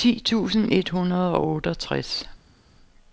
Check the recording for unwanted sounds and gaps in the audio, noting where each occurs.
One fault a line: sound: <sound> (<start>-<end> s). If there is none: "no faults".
no faults